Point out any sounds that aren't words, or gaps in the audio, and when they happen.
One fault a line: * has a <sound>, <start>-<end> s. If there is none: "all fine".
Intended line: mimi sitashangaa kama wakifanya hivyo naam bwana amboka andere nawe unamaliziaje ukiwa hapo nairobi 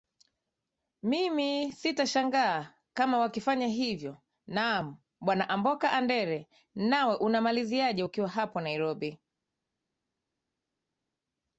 all fine